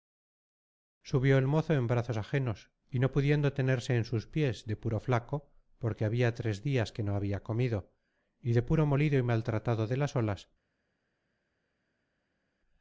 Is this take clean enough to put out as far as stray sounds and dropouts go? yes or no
yes